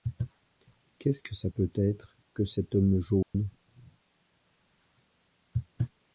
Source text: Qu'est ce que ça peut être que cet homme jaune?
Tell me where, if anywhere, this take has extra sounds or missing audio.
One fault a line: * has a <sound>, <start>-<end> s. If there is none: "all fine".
* has a dropout, 3.2-3.3 s